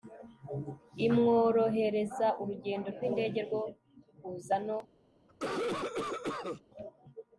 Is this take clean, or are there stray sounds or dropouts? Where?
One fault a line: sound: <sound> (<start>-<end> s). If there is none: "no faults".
sound: cough (5.3-6.6 s)